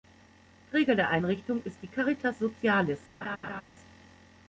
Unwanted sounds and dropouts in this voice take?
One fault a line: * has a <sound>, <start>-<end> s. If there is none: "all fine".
* has a laugh, 3.2-3.6 s